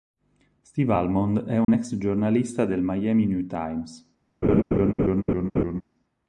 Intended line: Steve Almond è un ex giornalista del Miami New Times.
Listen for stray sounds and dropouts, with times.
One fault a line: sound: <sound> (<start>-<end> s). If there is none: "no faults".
sound: dropout (1.6-1.7 s)
sound: laugh (4.4-5.8 s)